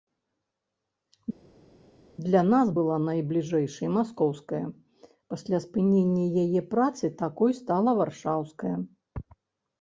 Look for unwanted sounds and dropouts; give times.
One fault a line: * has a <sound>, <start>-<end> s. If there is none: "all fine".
all fine